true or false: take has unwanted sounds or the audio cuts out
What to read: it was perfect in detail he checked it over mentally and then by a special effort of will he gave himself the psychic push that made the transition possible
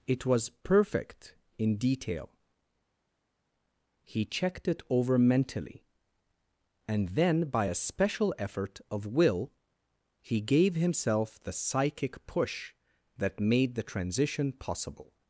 false